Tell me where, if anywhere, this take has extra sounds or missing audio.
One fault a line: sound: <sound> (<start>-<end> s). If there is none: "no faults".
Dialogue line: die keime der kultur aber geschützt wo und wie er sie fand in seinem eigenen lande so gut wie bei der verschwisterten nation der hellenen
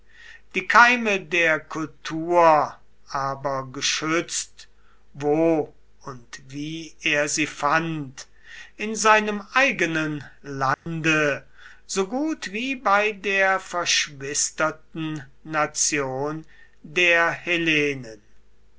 sound: dropout (10.7-10.9 s)